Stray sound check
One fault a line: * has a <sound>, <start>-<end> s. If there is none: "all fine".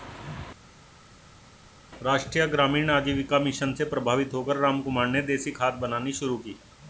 all fine